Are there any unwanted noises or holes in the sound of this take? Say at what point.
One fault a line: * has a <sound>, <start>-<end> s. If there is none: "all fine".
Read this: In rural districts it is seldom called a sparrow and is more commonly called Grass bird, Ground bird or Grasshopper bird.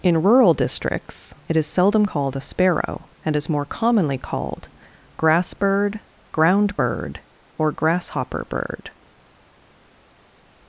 all fine